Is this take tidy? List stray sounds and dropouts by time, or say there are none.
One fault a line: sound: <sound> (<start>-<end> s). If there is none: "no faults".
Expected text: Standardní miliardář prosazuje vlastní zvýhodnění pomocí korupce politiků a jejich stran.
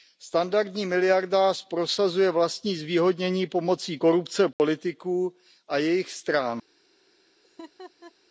sound: dropout (4.5-4.6 s)
sound: laugh (7.4-8.1 s)